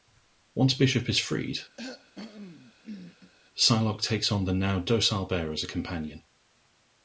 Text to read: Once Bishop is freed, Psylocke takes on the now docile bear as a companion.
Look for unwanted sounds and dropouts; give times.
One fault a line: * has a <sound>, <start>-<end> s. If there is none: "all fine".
* has a cough, 1.8-3.3 s